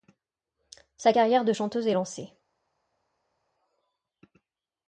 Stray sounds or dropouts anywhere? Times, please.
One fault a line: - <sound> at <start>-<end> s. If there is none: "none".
none